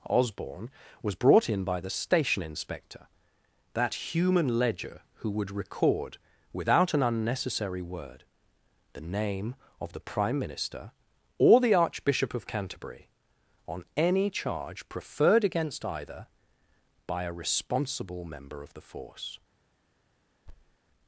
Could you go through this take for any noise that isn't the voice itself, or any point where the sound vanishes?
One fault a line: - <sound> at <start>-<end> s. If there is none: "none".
- thud at 20.5-20.8 s